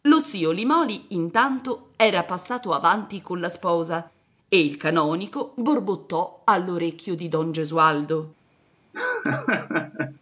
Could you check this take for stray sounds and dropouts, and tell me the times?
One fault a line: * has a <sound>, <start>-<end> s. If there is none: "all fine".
* has a laugh, 8.9-10.2 s